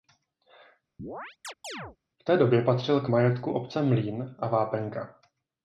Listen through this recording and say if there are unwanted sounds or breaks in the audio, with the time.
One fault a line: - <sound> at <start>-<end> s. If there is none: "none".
- chirp at 1.0-2.0 s